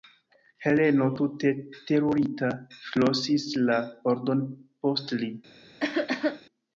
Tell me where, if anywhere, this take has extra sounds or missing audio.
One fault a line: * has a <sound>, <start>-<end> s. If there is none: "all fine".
* has a cough, 5.8-6.4 s